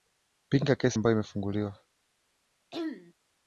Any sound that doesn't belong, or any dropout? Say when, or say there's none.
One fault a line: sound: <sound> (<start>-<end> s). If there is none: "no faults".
sound: throat clearing (2.7-3.1 s)